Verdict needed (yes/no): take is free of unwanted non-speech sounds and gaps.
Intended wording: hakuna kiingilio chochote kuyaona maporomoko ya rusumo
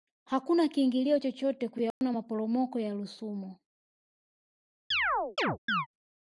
no